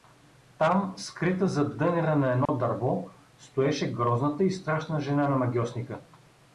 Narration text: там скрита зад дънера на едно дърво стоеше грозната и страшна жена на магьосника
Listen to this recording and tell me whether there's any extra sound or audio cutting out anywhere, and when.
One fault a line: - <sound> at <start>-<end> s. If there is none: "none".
- dropout at 2.5-2.5 s